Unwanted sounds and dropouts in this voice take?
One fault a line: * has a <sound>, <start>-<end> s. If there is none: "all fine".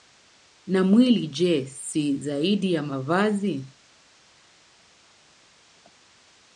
all fine